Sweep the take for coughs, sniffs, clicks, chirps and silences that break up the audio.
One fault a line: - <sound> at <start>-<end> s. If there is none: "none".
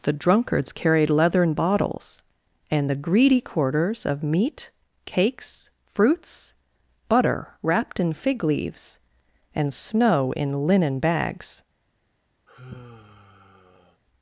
- sigh at 12.5-14.0 s